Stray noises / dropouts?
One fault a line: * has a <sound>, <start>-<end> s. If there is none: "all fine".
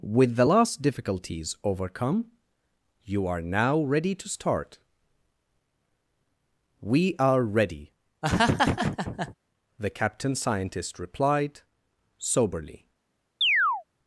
* has a laugh, 8.2-9.3 s
* has a chirp, 13.4-13.8 s